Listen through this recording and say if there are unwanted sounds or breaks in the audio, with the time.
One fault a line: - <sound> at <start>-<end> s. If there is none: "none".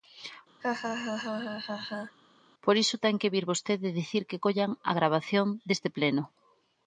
- laugh at 0.6-2.2 s